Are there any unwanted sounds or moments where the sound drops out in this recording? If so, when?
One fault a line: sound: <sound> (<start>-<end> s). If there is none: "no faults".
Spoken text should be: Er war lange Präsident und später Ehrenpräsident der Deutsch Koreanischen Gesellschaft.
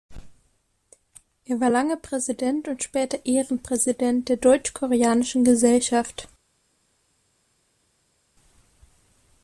no faults